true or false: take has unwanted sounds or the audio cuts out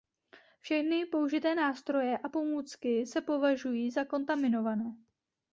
false